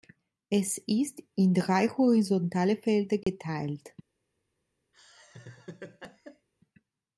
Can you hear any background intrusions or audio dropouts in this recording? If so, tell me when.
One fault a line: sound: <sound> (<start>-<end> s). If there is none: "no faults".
sound: dropout (3.2-3.3 s)
sound: laugh (4.9-6.5 s)